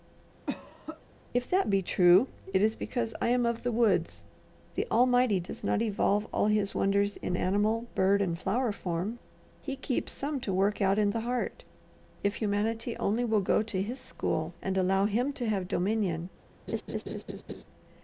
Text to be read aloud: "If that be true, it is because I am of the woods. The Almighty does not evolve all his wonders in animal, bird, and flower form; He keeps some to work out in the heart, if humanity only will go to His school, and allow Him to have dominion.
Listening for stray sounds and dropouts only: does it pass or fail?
fail